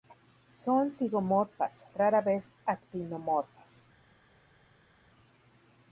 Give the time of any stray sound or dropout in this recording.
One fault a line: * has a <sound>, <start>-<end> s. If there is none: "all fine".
all fine